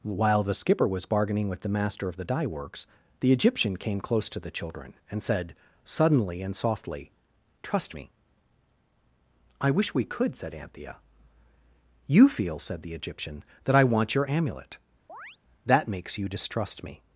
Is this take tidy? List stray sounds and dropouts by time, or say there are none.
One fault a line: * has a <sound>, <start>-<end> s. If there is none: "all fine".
* has a chirp, 15.1-15.4 s